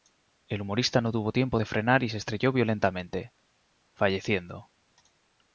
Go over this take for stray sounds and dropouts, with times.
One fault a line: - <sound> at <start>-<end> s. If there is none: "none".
none